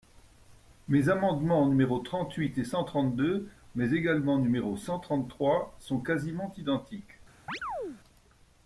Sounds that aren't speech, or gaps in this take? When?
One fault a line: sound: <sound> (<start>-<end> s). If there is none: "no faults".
sound: chirp (7.5-8.0 s)